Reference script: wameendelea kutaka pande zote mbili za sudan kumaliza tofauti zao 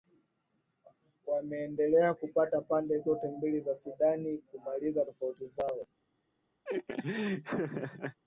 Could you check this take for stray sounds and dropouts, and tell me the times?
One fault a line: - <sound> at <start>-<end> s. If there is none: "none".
- laugh at 6.6-8.2 s